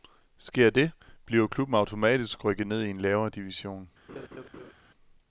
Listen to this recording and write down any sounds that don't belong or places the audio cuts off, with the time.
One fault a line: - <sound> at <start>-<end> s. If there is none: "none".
- laugh at 4.1-4.7 s